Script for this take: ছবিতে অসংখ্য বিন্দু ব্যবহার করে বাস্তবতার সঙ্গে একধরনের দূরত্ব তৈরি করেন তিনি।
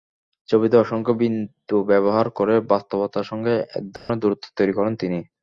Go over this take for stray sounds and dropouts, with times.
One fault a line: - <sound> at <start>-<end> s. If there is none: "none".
- dropout at 4.0-4.1 s